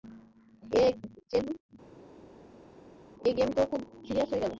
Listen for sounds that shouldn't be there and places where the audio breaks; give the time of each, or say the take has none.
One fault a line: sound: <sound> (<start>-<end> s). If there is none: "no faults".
no faults